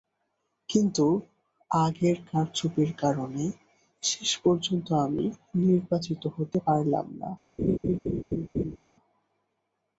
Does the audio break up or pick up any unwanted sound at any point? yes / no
yes